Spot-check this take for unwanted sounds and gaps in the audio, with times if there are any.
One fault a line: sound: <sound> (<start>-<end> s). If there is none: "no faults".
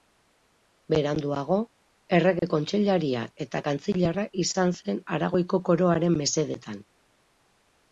sound: dropout (2.4-2.4 s)